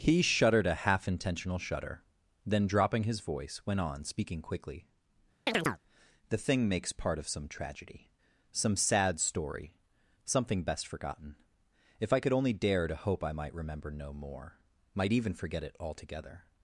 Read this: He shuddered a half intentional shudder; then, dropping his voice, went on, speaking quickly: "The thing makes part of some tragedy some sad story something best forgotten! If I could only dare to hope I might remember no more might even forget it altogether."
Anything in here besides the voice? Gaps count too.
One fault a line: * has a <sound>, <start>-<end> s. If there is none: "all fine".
* has a chirp, 5.5-5.8 s